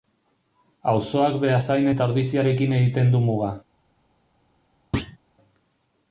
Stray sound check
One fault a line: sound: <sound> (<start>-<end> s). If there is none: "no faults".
sound: thud (4.9-5.2 s)